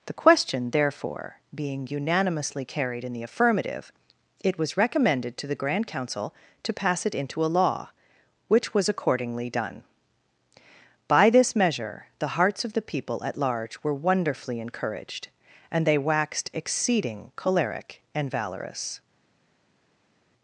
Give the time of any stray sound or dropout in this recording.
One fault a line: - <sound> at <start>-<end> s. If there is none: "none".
none